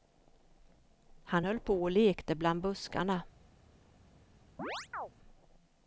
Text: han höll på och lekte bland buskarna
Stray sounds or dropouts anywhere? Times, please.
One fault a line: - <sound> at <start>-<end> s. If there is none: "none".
- chirp at 4.6-5.1 s